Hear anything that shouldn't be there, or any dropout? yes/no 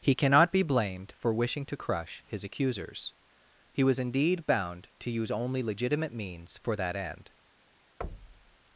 yes